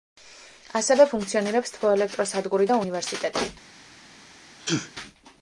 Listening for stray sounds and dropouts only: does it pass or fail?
fail